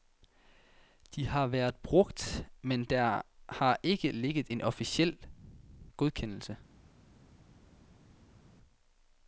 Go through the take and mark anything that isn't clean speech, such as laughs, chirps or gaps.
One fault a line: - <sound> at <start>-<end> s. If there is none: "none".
none